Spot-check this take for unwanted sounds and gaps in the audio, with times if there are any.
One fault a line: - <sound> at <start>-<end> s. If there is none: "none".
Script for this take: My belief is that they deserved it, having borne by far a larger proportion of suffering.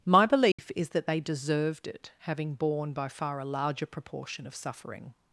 - dropout at 0.5-0.6 s